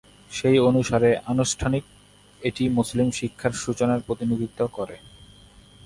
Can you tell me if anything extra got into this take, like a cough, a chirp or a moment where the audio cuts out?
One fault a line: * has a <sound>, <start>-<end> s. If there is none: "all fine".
all fine